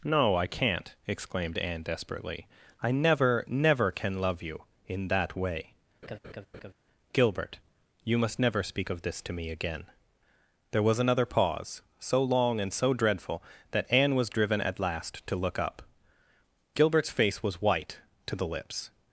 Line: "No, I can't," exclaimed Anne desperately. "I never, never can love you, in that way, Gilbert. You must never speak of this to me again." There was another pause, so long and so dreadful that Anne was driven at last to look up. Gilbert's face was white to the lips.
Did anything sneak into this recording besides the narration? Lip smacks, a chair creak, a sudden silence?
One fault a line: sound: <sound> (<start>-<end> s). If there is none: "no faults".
sound: laugh (6.0-6.7 s)